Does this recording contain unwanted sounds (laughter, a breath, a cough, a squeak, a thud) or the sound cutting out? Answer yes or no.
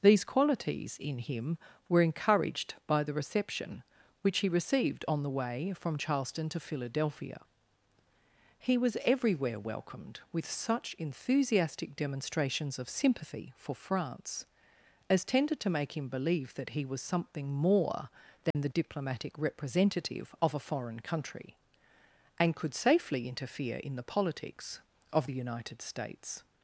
yes